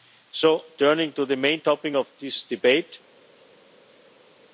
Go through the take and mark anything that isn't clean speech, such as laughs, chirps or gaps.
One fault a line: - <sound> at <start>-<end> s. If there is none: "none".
none